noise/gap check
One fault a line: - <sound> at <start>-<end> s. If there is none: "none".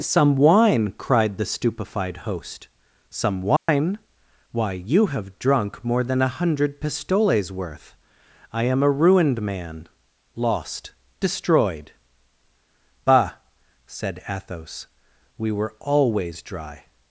- dropout at 3.6-3.7 s